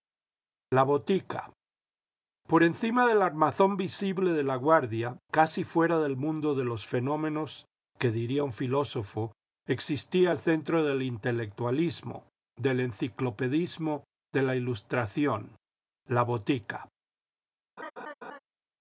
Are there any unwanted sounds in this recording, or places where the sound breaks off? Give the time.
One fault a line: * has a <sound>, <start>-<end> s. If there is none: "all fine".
* has a laugh, 17.8-18.4 s